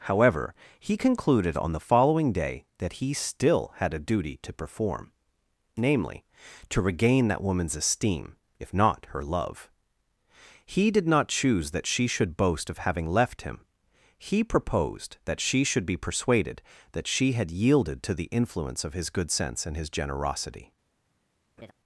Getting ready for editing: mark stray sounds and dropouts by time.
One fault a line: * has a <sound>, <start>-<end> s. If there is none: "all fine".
* has a laugh, 21.6-21.7 s